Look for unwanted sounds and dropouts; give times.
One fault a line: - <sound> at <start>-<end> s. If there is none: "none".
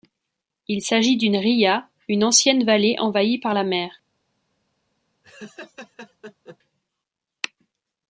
- laugh at 5.2-6.6 s